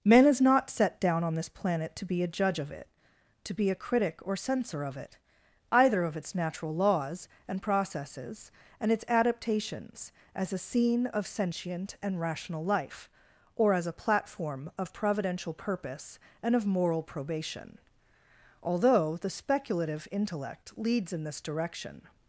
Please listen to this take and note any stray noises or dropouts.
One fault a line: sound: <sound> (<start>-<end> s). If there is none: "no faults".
no faults